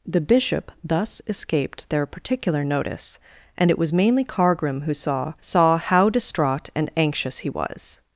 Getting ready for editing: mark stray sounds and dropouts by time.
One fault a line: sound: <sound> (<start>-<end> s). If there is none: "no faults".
no faults